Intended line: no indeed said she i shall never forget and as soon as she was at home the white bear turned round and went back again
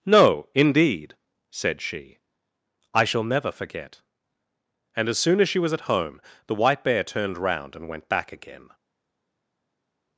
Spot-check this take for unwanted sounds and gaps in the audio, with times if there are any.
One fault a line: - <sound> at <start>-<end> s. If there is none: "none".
none